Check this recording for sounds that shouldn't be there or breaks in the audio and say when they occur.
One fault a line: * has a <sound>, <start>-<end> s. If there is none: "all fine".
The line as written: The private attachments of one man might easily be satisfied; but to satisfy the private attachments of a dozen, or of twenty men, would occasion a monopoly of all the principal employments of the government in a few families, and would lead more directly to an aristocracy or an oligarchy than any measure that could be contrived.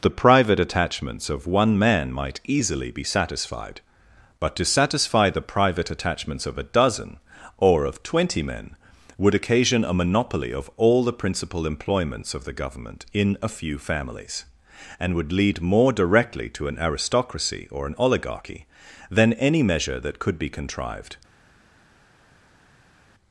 all fine